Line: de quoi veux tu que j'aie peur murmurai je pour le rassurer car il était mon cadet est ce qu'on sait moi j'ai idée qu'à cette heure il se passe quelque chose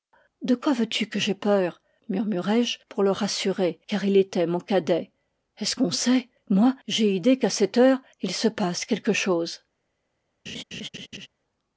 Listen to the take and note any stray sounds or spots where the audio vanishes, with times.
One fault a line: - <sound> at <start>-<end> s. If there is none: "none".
- laugh at 10.5-11.3 s